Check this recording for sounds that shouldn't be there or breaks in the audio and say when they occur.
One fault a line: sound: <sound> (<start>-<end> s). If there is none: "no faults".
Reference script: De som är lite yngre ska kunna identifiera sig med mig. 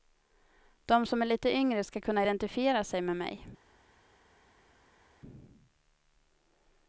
no faults